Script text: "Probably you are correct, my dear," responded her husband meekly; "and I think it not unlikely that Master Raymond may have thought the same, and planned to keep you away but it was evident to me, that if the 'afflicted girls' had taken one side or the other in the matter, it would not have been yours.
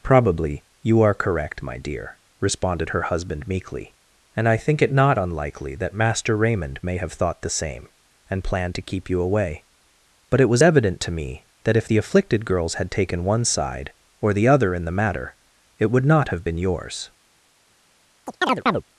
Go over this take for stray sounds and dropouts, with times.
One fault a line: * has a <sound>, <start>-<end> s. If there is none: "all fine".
* has a chirp, 18.3-18.8 s